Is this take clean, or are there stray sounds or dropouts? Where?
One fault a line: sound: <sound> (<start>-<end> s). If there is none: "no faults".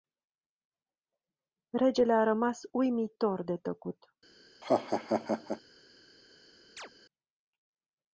sound: laugh (4.6-5.6 s)
sound: chirp (6.8-6.9 s)